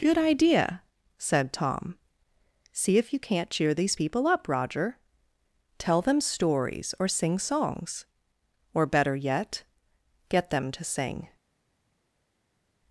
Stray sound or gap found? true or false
false